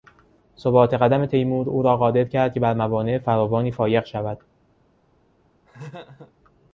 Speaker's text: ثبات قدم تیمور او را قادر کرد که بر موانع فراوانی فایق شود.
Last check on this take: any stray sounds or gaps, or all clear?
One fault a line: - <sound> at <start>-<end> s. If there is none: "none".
- laugh at 5.7-6.3 s